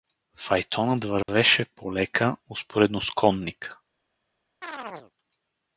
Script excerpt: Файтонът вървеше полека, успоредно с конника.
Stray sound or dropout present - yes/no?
yes